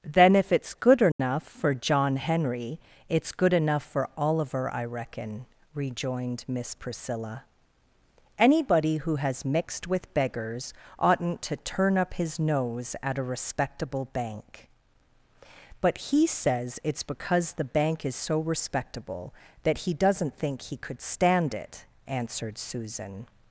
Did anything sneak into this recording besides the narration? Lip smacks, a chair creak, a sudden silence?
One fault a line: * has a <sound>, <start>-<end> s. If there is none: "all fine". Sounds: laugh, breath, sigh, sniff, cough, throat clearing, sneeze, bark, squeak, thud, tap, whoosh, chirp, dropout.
* has a dropout, 1.1-1.2 s